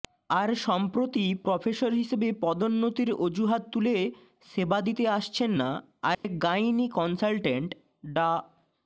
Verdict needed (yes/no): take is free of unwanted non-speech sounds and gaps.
no